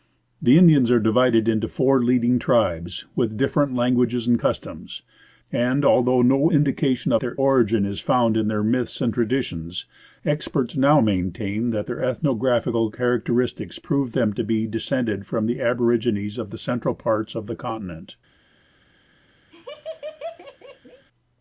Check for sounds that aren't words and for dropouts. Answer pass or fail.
fail